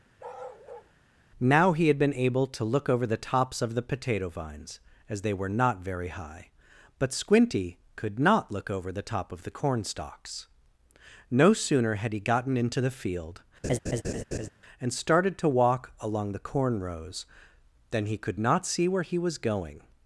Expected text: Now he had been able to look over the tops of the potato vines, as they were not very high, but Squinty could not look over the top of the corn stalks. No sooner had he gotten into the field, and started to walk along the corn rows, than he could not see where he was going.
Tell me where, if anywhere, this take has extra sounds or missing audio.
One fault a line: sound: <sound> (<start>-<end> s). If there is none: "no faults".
sound: bark (0.2-0.9 s)
sound: laugh (13.6-14.5 s)